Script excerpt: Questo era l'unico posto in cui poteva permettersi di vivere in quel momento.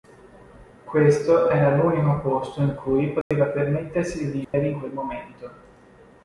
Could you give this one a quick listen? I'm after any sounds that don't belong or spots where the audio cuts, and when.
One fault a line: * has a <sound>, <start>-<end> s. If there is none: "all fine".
* has a dropout, 3.2-3.3 s
* has a dropout, 4.4-4.5 s